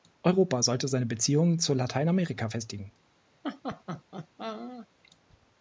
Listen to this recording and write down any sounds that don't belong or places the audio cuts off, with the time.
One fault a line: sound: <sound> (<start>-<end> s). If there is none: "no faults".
sound: laugh (3.4-4.9 s)